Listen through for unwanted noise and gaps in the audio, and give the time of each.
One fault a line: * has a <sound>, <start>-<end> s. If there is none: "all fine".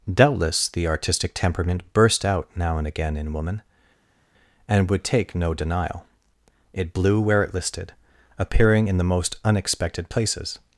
all fine